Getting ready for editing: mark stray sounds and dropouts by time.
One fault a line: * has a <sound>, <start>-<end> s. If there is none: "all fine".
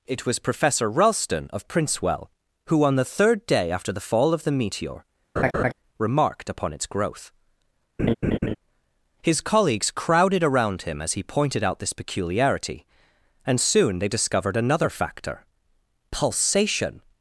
* has a laugh, 5.4-5.7 s
* has a laugh, 8.0-8.6 s